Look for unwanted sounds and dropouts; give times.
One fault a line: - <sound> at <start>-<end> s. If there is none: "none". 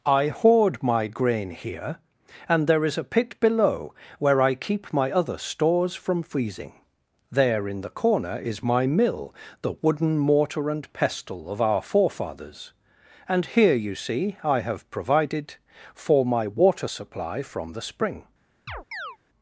- chirp at 18.7-19.2 s